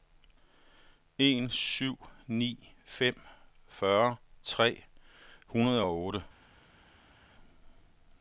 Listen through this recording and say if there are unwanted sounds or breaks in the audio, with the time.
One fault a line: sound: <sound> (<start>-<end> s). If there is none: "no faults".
no faults